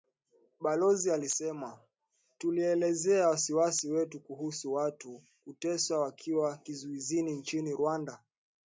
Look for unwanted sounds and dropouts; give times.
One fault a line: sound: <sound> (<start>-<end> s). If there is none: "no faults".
no faults